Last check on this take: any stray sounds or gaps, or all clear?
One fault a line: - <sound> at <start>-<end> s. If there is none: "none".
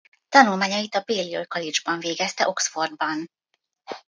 none